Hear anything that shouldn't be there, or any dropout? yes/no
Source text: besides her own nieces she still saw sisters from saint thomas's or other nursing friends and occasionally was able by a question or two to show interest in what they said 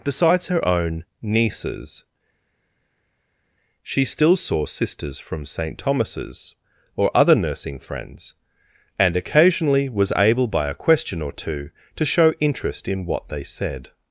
no